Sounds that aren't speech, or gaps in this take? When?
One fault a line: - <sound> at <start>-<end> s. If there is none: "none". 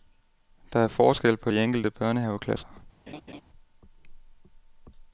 - laugh at 3.1-3.4 s